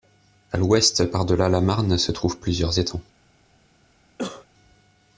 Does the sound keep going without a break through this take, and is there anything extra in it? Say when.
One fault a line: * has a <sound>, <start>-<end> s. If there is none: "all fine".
* has a cough, 4.2-4.5 s